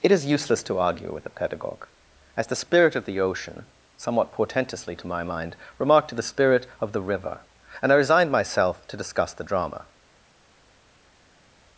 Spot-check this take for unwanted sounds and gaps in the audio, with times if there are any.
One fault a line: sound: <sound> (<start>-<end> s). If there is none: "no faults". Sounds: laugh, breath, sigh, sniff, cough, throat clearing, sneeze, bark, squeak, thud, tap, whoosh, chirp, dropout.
no faults